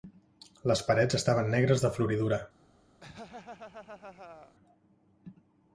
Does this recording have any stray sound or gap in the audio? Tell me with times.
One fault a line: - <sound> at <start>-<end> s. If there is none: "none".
- laugh at 3.0-4.6 s